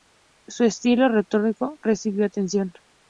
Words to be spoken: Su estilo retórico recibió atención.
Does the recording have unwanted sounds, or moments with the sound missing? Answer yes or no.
no